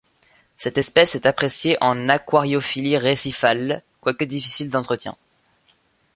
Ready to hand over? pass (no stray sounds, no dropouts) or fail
pass